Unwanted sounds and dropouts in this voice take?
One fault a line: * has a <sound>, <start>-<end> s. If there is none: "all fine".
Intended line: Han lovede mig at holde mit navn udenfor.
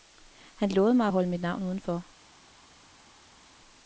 all fine